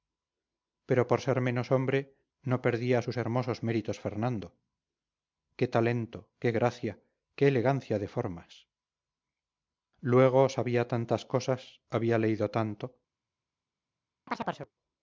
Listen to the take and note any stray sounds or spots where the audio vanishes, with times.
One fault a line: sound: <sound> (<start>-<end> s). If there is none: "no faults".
sound: chirp (14.3-14.7 s)